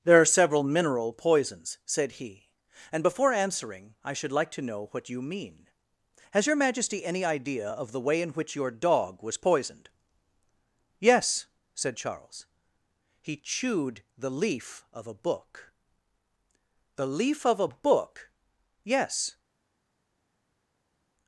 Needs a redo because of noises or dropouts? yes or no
no